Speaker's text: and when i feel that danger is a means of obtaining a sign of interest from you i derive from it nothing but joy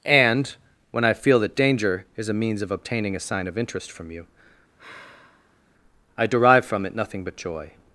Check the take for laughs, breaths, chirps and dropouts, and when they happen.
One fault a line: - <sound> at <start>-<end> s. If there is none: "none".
- sigh at 4.8-5.6 s